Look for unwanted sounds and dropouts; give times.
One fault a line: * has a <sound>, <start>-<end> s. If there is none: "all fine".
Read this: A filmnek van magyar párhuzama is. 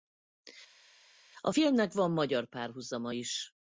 all fine